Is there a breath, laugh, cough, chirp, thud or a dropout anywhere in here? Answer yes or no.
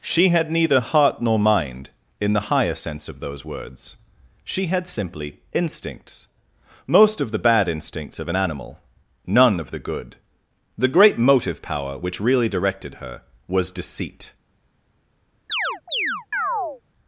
yes